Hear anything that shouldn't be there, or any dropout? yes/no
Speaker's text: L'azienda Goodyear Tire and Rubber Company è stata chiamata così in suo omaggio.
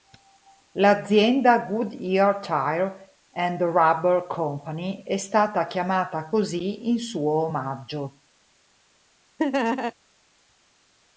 yes